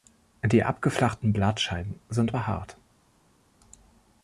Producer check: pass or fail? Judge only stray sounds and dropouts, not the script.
pass